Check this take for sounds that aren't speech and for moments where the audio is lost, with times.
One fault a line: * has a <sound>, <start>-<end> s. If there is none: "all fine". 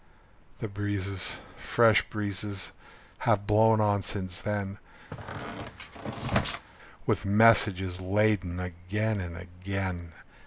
* has a squeak, 5.1-6.7 s